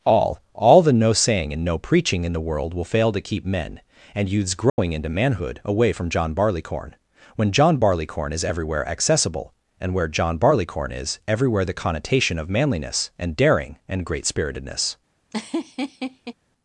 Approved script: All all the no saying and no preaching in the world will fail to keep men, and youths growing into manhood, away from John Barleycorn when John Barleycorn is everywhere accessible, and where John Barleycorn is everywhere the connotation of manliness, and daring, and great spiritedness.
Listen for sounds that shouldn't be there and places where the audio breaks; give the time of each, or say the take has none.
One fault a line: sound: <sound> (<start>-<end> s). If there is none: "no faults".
sound: dropout (4.7-4.8 s)
sound: laugh (15.3-16.3 s)